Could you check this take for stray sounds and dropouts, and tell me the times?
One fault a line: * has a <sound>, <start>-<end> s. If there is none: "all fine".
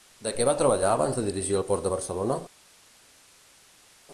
all fine